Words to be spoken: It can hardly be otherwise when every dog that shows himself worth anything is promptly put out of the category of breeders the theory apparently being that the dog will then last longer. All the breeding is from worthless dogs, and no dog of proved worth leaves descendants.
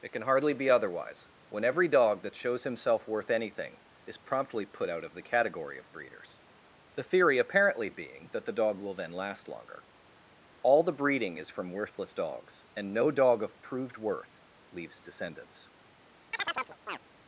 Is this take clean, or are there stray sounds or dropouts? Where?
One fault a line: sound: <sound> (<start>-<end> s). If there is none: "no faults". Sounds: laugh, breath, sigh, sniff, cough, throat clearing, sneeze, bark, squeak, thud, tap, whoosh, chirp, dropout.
sound: chirp (16.3-17.0 s)